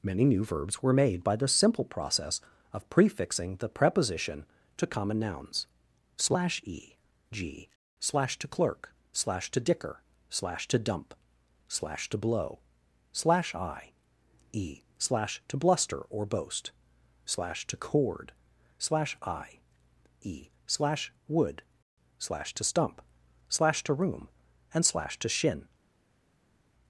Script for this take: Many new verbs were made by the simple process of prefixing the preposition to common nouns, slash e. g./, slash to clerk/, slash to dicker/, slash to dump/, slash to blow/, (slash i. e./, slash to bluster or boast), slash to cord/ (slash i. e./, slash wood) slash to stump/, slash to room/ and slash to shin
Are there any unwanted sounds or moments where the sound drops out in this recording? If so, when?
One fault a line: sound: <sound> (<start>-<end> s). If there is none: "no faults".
no faults